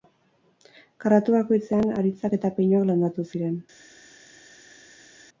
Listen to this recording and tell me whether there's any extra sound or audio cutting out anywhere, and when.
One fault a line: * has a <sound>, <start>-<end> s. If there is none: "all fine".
all fine